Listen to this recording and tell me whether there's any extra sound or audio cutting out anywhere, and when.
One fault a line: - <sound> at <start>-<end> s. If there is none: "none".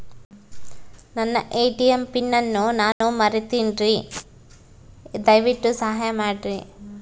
- dropout at 2.9-3.0 s